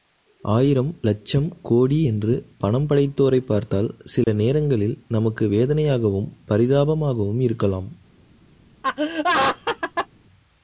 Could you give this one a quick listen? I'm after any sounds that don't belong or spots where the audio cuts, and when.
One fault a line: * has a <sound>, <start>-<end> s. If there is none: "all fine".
* has a dropout, 4.2-4.3 s
* has a laugh, 8.8-10.1 s